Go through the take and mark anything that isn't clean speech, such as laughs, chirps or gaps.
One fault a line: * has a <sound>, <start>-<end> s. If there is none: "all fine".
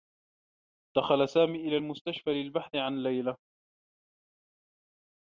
all fine